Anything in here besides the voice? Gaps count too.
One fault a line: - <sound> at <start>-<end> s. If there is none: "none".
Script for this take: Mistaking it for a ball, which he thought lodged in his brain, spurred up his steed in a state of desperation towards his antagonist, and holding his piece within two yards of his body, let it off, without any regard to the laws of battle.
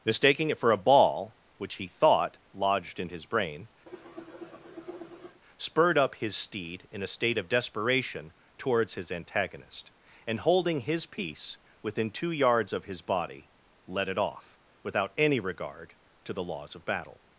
- cough at 3.9-5.4 s